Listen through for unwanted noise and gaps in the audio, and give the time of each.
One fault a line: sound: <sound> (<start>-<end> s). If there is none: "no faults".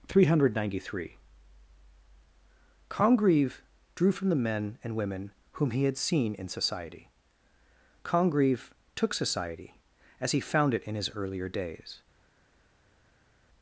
no faults